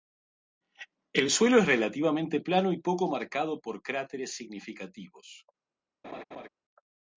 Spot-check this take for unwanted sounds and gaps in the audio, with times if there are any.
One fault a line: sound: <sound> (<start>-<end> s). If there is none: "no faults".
sound: laugh (6.0-6.5 s)